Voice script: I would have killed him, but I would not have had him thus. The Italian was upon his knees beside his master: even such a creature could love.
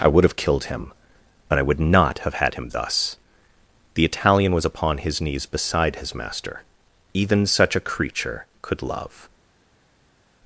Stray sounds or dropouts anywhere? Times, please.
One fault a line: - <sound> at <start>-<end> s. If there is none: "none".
none